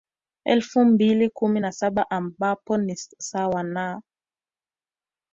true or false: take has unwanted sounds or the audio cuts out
false